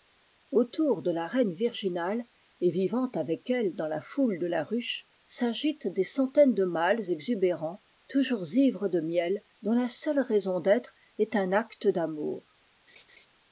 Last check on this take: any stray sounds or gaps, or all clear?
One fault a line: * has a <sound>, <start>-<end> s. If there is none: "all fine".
* has a laugh, 12.9-13.3 s